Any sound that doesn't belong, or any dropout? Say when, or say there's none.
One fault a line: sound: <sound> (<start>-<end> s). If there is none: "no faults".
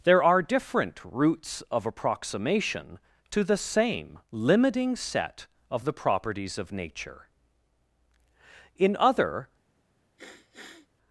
sound: sniff (10.2-10.9 s)